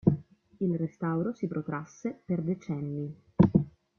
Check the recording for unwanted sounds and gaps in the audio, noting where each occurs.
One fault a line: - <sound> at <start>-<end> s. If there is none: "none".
none